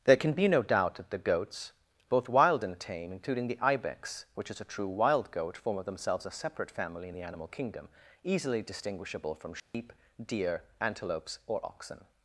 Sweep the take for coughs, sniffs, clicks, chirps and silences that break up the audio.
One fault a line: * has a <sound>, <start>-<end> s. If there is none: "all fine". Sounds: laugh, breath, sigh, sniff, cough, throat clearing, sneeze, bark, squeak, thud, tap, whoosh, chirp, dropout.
* has a dropout, 9.6-9.7 s